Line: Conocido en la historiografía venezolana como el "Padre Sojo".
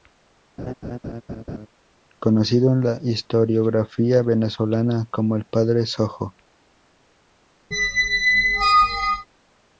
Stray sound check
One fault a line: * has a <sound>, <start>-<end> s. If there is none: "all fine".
* has a laugh, 0.6-1.7 s
* has a squeak, 7.7-9.3 s